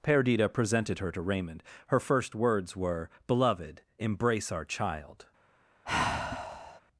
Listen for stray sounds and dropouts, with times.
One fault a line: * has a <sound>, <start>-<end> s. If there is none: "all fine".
* has a sigh, 5.9-6.8 s